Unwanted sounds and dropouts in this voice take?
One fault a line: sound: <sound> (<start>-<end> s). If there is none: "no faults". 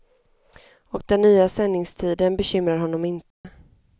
sound: dropout (3.3-3.4 s)